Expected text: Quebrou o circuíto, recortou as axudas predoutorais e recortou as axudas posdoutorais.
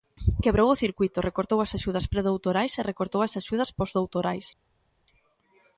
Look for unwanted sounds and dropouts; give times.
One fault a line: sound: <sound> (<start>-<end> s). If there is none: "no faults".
no faults